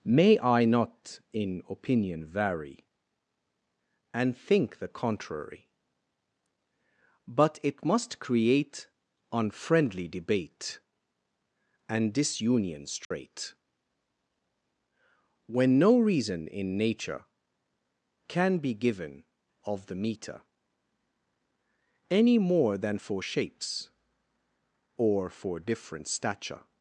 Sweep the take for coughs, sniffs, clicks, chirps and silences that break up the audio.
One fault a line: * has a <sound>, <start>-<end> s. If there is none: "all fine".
* has a dropout, 13.0-13.1 s